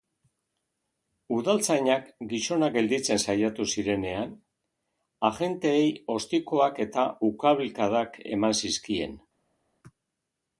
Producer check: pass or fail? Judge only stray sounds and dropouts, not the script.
pass